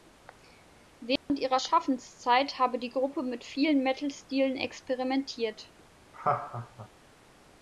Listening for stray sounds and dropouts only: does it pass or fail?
fail